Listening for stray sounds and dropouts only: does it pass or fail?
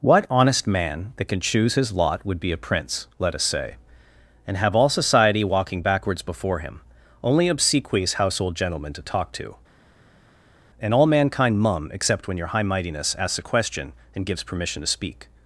pass